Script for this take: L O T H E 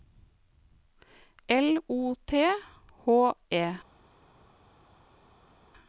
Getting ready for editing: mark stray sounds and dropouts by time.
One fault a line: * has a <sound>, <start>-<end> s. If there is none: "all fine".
all fine